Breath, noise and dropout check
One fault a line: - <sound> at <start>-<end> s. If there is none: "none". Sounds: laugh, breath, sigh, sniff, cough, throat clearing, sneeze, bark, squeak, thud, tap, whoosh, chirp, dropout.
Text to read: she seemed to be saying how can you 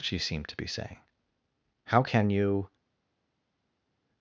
none